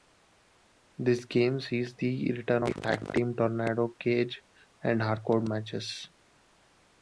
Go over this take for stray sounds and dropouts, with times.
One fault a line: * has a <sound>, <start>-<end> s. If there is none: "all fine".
all fine